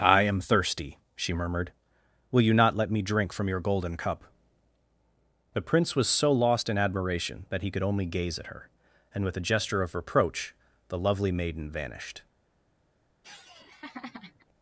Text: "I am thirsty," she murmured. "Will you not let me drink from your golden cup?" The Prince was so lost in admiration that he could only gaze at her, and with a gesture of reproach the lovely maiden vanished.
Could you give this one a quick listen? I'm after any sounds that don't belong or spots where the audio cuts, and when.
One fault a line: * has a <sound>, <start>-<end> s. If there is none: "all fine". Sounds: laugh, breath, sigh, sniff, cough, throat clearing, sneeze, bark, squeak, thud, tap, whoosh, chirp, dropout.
* has a laugh, 13.2-14.5 s